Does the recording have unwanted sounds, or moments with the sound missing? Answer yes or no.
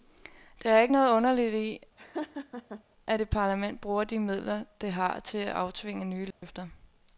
yes